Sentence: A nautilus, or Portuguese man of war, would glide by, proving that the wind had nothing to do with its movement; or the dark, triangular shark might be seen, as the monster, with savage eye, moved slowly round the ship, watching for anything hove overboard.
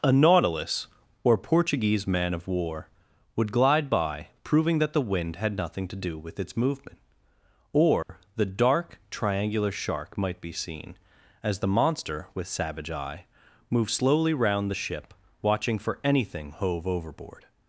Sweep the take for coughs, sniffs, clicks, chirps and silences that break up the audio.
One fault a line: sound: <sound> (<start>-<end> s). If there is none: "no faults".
sound: dropout (8.0-8.1 s)